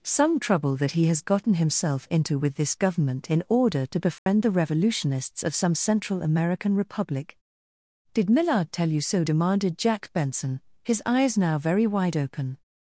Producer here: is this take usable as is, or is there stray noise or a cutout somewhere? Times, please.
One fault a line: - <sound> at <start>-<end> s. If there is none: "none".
- dropout at 4.2-4.3 s